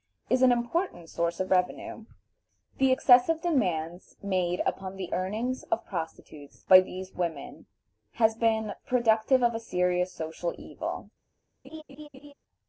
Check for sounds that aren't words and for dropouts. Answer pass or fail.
fail